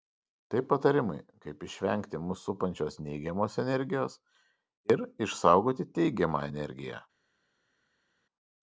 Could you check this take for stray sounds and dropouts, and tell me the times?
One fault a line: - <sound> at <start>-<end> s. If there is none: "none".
none